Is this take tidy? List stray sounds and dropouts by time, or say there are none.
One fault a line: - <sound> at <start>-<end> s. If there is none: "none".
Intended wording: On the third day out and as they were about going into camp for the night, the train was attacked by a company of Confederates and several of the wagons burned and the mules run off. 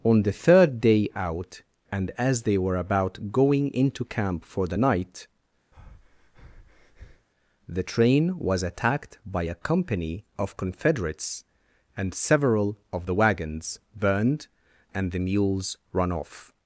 - breath at 5.7-7.3 s